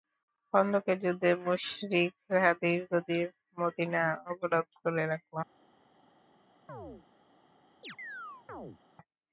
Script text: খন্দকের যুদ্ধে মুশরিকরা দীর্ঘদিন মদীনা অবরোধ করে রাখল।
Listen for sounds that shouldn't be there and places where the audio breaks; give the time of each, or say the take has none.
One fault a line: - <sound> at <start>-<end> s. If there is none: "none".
- chirp at 6.7-7.1 s
- chirp at 7.8-8.8 s